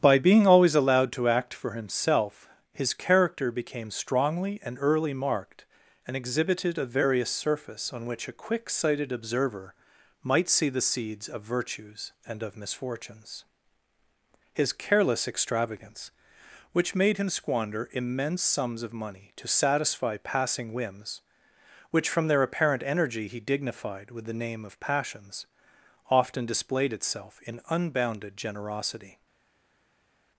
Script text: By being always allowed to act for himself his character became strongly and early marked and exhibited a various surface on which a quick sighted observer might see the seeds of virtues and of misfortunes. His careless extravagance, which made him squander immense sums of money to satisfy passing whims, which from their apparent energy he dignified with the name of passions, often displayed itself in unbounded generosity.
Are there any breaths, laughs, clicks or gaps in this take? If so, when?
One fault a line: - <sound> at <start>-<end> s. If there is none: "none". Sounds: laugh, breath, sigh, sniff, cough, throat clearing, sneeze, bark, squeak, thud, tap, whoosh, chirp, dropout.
none